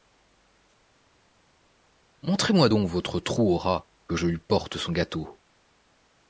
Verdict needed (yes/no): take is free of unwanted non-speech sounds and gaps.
yes